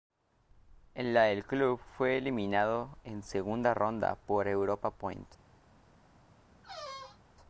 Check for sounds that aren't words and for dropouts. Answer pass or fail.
fail